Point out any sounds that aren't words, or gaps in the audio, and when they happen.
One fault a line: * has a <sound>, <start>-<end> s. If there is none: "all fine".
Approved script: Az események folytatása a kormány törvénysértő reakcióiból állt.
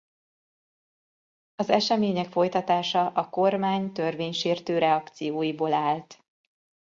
all fine